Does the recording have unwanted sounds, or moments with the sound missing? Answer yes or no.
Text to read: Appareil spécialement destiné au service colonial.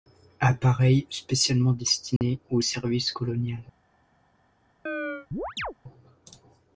yes